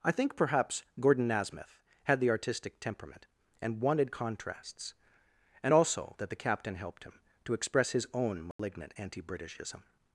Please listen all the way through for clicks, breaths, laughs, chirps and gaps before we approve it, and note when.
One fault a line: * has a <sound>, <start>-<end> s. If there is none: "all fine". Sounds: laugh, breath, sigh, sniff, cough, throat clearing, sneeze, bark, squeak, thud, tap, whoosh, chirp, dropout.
* has a dropout, 8.5-8.6 s